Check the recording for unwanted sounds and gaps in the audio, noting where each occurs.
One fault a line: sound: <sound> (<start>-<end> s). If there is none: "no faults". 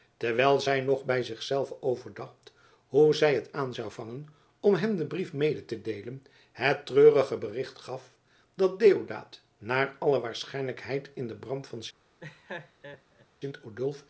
sound: laugh (12.2-13.3 s)